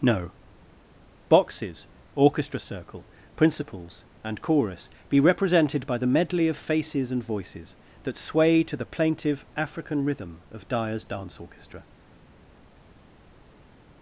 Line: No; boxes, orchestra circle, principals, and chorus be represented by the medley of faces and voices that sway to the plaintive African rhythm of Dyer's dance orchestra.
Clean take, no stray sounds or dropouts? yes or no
yes